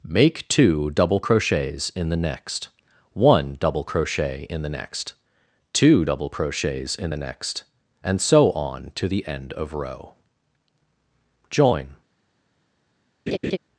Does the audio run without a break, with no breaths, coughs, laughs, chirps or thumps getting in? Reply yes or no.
no